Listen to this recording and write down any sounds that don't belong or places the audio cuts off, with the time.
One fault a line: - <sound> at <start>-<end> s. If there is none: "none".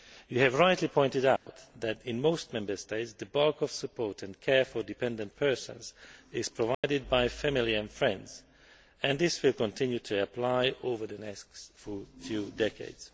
- dropout at 1.4-1.5 s
- dropout at 6.7-6.8 s